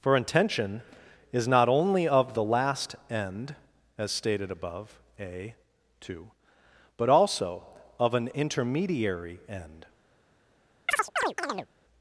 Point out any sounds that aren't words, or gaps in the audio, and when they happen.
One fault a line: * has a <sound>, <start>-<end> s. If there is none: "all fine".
* has a chirp, 10.9-11.7 s